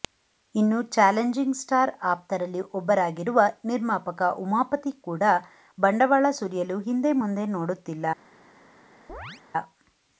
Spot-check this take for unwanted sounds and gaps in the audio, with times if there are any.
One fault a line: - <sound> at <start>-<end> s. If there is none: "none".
- chirp at 9.1-9.4 s